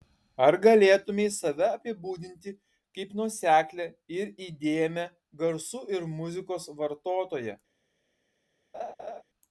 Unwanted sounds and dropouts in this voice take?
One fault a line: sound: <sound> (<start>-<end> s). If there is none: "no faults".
sound: laugh (8.7-9.2 s)